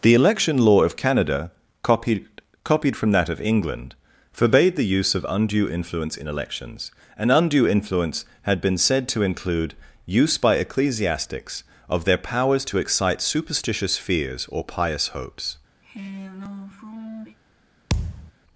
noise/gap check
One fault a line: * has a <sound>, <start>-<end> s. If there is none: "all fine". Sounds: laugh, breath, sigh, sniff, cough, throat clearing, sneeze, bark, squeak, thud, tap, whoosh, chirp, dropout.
* has a sigh, 15.8-17.4 s
* has a thud, 17.9-18.3 s